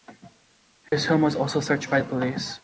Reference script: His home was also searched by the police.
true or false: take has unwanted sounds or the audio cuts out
true